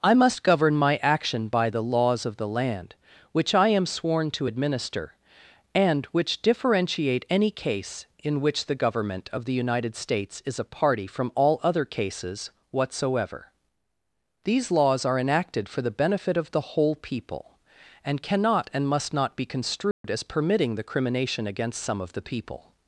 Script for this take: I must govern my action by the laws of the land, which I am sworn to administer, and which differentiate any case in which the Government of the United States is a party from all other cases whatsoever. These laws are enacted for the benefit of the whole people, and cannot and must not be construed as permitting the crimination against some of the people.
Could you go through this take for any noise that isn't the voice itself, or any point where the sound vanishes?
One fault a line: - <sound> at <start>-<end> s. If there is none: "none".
- dropout at 19.9-20.0 s